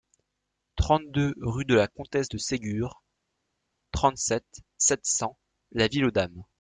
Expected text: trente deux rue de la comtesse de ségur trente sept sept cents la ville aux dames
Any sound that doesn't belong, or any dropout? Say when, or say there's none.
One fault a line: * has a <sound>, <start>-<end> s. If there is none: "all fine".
all fine